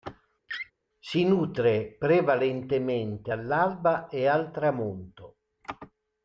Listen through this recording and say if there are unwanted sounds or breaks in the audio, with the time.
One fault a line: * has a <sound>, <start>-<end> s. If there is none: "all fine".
* has a laugh, 0.5-0.7 s